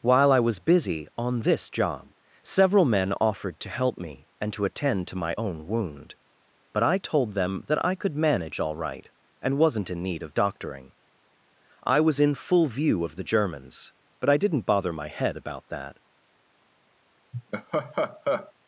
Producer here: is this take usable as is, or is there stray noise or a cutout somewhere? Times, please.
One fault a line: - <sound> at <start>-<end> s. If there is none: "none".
- laugh at 17.3-18.5 s